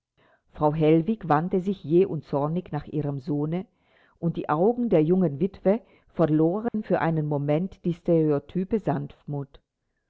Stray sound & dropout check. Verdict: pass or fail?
fail